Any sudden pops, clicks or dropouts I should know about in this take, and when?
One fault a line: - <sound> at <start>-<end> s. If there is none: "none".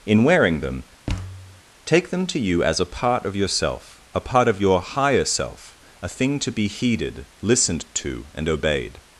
- thud at 1.1-1.6 s